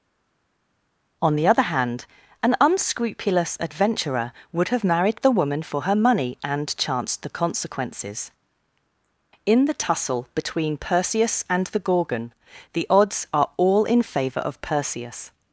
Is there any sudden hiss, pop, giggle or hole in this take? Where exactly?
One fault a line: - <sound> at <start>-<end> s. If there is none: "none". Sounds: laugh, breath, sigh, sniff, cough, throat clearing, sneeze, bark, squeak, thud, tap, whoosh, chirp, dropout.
none